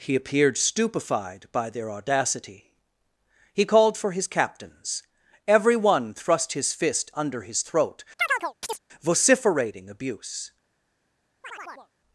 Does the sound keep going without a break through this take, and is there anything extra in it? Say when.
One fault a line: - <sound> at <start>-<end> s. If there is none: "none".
- chirp at 8.2-8.8 s
- chirp at 11.4-11.9 s